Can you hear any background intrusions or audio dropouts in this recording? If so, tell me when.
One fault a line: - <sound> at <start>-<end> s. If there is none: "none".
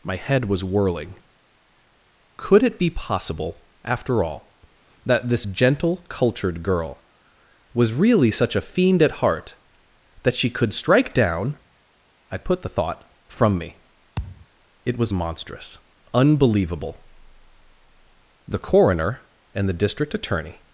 - thud at 14.2-14.5 s